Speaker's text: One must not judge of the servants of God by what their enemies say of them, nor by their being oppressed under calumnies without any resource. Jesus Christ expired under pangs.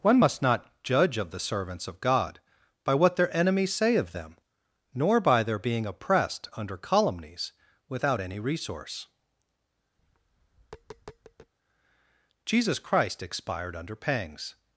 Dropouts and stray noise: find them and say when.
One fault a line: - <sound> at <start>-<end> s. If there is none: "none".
- tap at 10.0-11.5 s